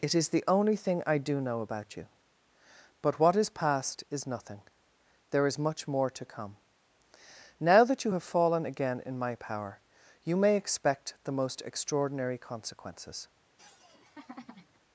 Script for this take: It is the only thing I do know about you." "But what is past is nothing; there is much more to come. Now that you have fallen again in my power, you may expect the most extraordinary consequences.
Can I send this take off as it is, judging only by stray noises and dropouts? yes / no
no